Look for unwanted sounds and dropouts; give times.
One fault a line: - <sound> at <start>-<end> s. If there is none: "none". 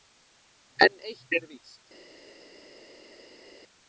none